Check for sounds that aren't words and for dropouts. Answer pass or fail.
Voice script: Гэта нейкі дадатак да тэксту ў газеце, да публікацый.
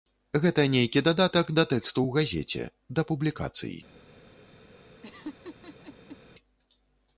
fail